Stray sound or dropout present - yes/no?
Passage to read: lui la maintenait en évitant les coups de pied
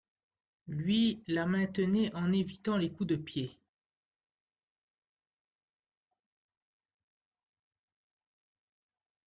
no